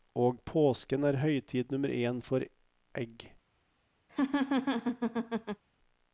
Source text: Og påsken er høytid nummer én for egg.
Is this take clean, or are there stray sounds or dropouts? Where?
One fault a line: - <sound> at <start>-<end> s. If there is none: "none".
- laugh at 4.1-5.6 s